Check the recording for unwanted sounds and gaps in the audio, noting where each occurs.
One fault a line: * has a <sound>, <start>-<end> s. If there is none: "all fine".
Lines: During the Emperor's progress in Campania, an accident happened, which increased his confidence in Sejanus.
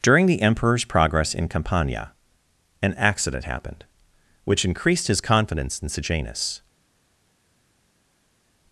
all fine